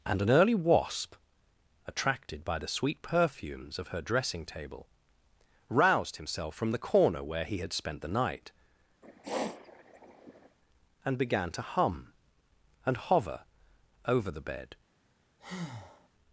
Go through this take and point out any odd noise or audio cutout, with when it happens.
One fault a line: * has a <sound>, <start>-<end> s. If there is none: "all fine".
* has a sniff, 9.0-10.6 s
* has a breath, 15.4-16.1 s